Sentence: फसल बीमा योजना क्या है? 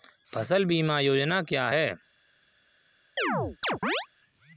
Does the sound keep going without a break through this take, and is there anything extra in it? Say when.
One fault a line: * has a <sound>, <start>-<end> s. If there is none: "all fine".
* has a chirp, 3.2-4.1 s